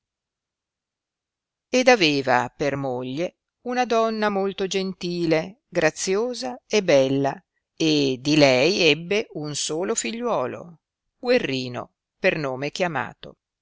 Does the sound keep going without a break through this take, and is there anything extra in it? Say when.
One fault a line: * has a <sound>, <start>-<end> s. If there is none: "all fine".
all fine